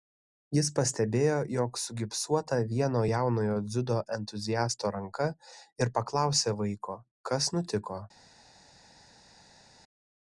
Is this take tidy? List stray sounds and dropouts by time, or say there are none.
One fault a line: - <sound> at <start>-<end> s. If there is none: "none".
none